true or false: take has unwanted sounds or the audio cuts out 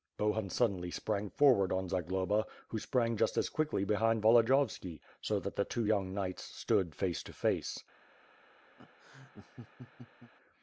true